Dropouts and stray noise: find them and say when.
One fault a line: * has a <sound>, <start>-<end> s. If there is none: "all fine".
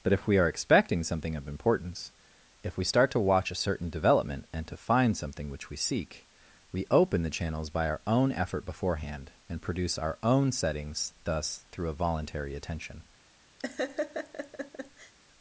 * has a laugh, 13.6-15.1 s